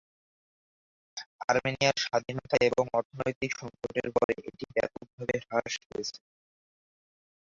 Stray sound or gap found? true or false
true